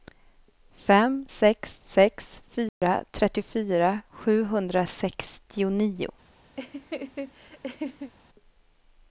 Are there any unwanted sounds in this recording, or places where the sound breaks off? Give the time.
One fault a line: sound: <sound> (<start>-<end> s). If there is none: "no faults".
sound: dropout (2.7-2.8 s)
sound: laugh (6.6-8.1 s)